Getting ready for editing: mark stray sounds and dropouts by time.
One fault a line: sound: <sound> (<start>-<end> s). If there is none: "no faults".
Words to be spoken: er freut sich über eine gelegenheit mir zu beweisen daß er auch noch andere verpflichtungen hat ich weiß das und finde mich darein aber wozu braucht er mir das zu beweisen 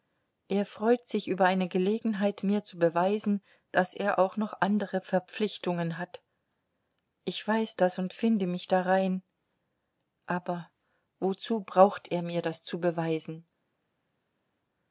no faults